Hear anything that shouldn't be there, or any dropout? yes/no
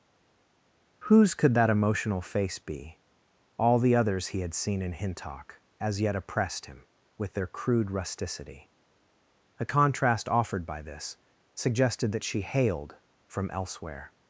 no